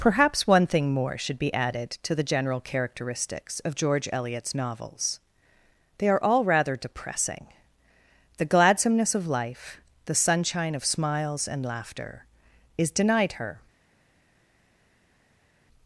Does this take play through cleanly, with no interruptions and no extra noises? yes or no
yes